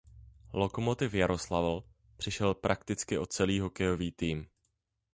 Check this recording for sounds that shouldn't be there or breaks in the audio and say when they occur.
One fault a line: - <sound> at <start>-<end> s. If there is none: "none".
none